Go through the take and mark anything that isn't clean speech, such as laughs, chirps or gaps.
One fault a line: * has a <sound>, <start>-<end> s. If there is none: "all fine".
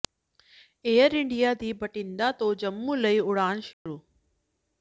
* has a dropout, 3.7-3.9 s